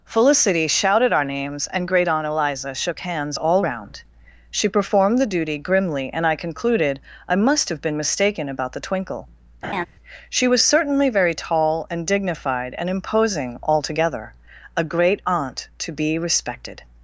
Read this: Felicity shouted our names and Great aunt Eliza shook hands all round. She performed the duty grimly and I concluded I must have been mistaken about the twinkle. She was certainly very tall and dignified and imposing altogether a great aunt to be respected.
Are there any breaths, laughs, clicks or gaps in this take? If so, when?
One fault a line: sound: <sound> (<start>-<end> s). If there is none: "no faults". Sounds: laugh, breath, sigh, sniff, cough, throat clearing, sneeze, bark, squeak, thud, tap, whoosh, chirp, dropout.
sound: laugh (9.6-9.9 s)